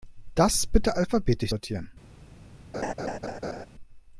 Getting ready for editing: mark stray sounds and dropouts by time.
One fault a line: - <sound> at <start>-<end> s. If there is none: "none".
- laugh at 2.7-3.7 s